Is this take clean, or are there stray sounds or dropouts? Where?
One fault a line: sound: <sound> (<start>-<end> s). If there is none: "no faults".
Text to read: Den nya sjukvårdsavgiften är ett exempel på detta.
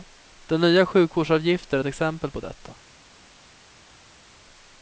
no faults